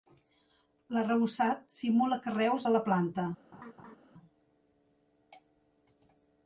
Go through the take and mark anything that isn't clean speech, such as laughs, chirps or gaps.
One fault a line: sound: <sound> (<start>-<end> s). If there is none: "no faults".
sound: laugh (3.5-4.0 s)